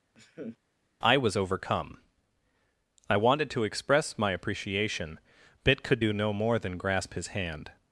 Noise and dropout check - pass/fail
fail